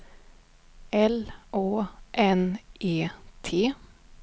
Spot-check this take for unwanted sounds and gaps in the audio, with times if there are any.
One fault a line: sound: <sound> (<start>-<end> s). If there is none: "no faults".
no faults